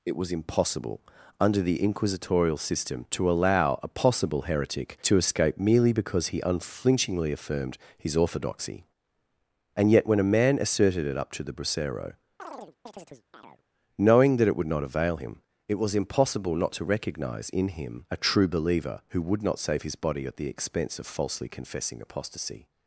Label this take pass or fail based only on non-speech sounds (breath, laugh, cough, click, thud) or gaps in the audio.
fail